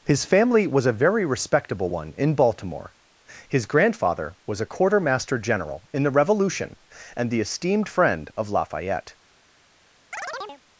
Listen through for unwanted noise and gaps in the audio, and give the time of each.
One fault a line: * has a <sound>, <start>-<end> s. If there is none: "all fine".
* has a chirp, 10.1-10.6 s